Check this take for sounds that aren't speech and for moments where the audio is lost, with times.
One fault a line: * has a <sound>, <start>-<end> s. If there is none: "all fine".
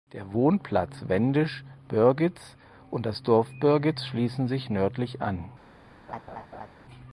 * has a laugh, 6.1-6.7 s